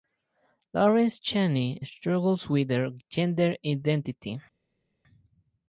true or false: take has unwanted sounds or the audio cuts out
false